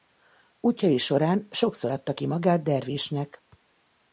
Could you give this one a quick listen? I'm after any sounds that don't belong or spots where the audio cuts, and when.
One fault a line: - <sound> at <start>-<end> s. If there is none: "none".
none